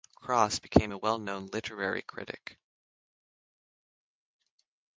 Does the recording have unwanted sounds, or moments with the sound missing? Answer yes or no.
no